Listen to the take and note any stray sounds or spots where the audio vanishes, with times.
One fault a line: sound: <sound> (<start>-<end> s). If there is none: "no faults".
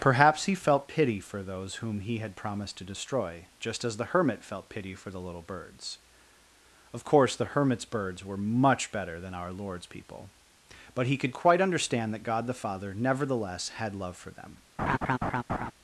sound: laugh (14.8-15.7 s)